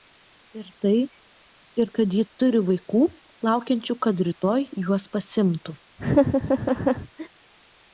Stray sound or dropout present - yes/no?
yes